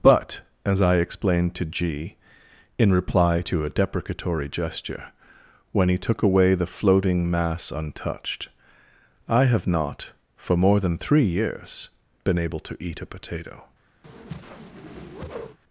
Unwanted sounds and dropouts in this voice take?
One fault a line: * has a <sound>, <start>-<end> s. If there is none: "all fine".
* has a whoosh, 14.0-15.6 s